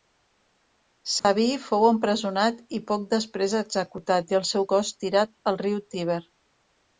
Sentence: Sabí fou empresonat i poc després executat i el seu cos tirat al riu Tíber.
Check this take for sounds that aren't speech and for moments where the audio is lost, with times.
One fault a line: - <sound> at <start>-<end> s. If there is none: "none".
- dropout at 1.2-1.2 s